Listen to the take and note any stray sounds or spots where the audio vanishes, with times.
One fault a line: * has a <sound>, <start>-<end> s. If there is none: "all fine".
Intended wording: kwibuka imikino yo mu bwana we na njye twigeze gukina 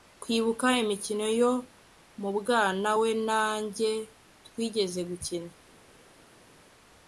all fine